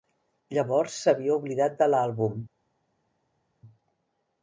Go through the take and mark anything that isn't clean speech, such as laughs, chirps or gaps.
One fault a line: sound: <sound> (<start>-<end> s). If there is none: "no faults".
no faults